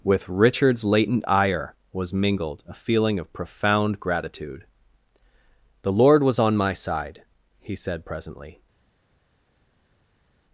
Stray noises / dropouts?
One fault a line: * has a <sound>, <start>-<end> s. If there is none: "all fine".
all fine